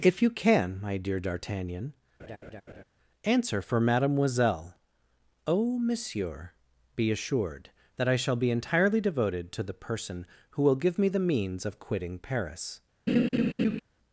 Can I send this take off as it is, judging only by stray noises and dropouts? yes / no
no